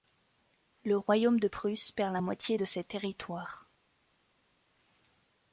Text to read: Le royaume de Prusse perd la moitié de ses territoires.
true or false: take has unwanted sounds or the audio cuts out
false